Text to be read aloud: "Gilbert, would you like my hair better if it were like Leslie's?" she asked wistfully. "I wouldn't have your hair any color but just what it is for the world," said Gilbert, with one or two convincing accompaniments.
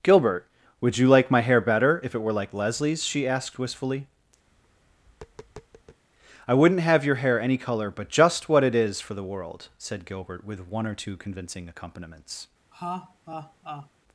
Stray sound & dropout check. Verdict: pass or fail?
fail